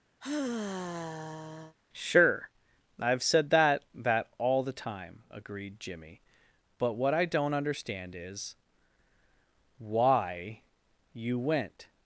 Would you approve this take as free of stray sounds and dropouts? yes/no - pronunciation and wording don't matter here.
no